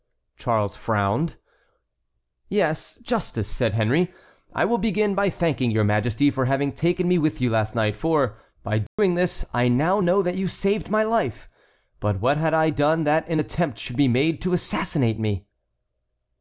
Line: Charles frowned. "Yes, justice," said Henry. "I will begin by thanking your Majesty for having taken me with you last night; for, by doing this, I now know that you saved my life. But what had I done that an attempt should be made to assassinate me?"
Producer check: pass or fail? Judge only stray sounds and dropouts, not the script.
fail